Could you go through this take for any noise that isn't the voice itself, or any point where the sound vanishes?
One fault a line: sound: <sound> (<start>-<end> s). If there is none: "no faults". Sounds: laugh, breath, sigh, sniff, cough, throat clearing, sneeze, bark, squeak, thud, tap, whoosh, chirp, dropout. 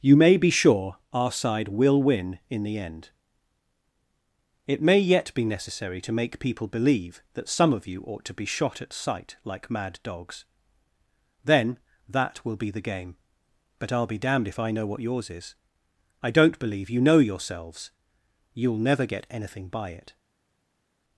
no faults